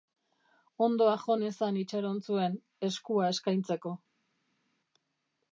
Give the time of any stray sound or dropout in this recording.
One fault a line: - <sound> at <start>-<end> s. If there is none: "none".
none